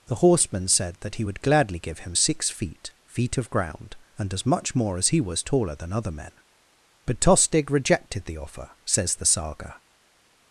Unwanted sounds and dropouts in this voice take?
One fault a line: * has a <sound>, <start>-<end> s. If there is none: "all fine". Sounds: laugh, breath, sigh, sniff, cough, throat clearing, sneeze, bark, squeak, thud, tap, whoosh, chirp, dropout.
all fine